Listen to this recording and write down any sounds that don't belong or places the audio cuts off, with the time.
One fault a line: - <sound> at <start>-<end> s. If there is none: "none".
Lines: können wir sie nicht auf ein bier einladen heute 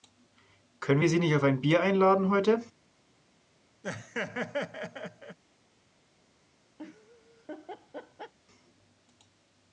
- laugh at 3.8-5.4 s
- laugh at 6.8-8.3 s